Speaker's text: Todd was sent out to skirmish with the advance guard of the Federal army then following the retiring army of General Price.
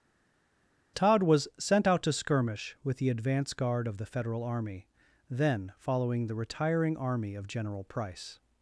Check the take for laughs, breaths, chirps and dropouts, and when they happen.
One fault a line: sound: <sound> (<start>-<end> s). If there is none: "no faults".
no faults